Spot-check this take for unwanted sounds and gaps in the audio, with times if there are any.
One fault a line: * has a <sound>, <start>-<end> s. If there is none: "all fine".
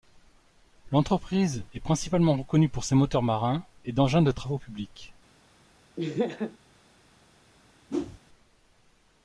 * has a laugh, 6.0-6.6 s
* has a whoosh, 7.9-8.2 s